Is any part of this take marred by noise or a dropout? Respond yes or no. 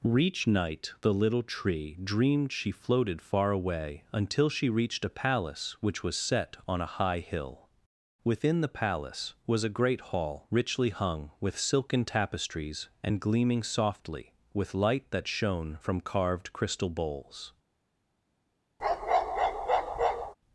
yes